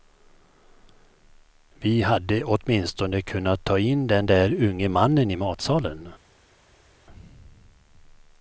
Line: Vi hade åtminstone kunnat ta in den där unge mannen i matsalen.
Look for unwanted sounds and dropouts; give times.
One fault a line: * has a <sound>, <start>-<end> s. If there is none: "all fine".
all fine